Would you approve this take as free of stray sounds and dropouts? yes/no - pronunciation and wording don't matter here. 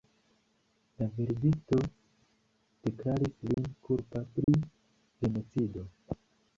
no